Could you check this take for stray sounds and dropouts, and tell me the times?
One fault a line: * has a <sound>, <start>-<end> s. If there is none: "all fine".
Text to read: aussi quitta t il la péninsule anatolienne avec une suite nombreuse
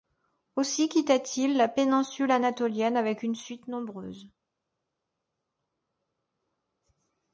all fine